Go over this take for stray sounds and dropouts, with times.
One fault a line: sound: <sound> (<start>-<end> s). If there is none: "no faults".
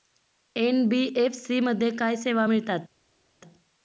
no faults